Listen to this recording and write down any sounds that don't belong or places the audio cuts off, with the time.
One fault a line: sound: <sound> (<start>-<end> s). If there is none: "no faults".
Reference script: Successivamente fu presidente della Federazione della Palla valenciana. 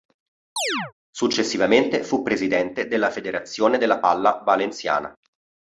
sound: chirp (0.6-0.9 s)